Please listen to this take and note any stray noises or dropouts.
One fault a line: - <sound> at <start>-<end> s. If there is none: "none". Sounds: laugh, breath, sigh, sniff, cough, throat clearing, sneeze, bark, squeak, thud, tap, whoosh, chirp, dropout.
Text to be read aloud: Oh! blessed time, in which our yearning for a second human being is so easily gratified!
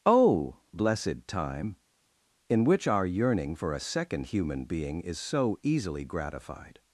none